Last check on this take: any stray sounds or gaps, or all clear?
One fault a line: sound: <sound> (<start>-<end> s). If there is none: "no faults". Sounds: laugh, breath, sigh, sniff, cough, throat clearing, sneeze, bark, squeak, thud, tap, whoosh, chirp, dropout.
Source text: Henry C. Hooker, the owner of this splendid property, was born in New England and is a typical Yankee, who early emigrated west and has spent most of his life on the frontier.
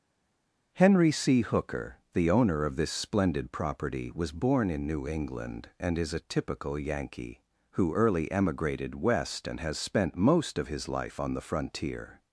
no faults